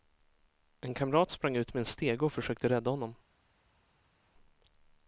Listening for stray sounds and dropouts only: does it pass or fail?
pass